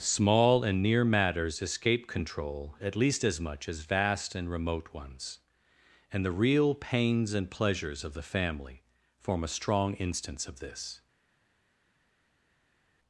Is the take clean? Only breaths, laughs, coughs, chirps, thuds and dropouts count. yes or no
yes